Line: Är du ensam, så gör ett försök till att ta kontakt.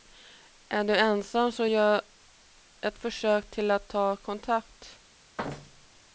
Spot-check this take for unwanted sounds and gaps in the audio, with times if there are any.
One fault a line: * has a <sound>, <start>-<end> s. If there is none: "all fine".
* has a thud, 5.4-6.0 s